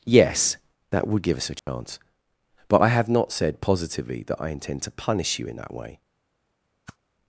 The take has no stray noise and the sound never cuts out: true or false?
false